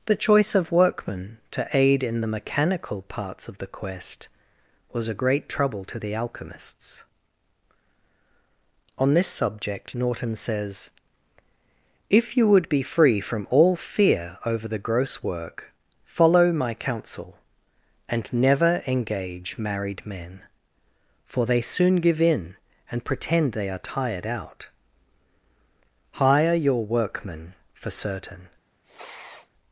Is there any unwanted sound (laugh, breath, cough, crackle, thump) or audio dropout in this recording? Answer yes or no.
yes